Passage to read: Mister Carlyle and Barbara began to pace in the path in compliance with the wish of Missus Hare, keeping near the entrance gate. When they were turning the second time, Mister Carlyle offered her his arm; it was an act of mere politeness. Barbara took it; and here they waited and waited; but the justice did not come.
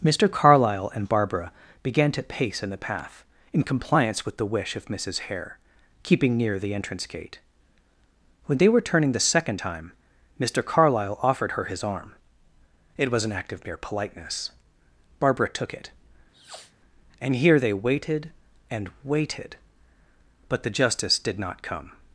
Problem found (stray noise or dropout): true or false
true